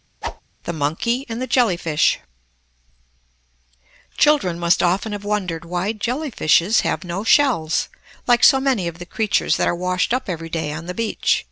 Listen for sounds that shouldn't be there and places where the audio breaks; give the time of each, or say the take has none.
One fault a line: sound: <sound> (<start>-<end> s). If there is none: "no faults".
sound: whoosh (0.2-0.4 s)